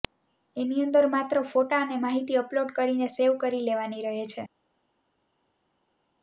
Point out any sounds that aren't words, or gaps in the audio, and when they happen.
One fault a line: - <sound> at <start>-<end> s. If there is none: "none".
none